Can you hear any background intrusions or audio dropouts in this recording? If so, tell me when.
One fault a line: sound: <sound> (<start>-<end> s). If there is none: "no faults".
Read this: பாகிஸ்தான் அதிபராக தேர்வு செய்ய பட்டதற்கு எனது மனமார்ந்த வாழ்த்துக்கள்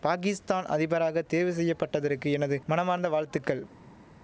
no faults